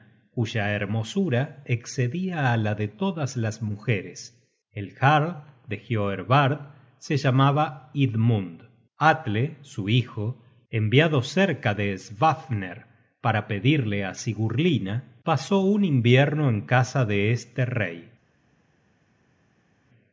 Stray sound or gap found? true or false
false